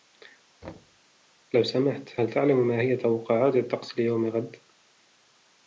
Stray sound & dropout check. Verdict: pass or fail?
fail